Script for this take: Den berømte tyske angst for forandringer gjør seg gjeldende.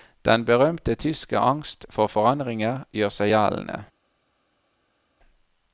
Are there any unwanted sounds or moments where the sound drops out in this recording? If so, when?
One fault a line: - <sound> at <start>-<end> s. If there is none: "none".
none